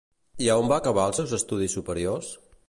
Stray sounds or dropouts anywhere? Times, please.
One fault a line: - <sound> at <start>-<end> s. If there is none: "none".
none